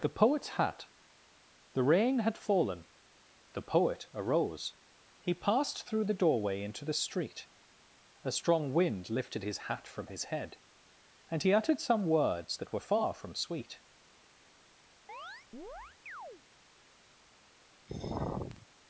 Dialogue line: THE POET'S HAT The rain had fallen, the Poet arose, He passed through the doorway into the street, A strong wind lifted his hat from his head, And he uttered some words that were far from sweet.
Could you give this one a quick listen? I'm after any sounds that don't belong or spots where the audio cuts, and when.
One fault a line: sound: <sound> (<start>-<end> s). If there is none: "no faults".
sound: chirp (15.1-16.4 s)
sound: sigh (17.9-18.7 s)